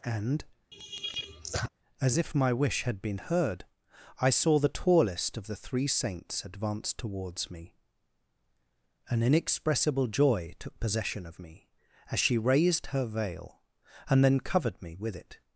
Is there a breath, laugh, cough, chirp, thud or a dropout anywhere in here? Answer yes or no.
yes